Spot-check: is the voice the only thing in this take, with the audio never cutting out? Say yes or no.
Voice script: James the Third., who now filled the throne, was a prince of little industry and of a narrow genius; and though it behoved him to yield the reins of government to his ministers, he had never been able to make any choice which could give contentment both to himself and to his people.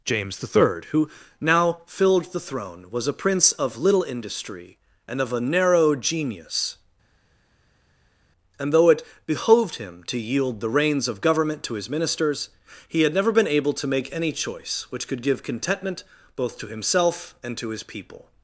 yes